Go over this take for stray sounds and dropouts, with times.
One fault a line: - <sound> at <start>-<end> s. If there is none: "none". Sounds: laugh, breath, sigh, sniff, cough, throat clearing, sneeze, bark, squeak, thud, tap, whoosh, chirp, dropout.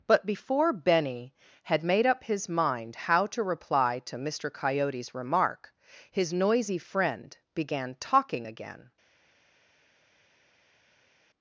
none